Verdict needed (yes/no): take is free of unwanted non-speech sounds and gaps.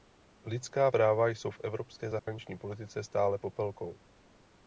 no